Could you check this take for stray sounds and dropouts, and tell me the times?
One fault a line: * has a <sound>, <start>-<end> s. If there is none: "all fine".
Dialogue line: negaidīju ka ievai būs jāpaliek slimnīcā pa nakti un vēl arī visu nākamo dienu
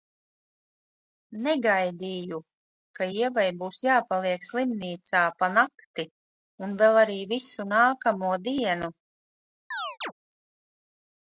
* has a chirp, 9.7-10.1 s